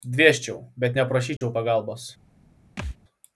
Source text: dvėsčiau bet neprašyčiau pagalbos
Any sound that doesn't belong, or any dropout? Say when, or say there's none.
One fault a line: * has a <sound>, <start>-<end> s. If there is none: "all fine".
* has a dropout, 1.4-1.4 s
* has a thud, 2.8-3.0 s